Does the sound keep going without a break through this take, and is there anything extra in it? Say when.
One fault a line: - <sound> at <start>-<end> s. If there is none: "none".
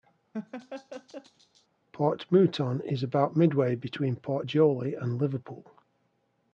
- laugh at 0.3-1.7 s